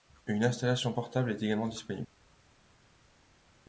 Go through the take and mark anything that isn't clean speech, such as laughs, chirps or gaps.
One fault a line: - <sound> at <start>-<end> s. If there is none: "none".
none